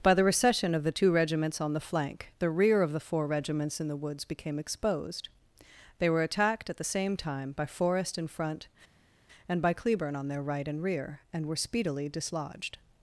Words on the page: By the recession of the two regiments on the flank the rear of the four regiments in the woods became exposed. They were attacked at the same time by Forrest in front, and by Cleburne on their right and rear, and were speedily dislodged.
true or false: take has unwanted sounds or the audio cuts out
false